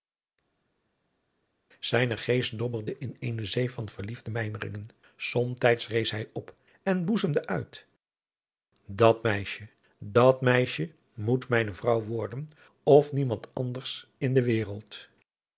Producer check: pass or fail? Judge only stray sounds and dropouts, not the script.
pass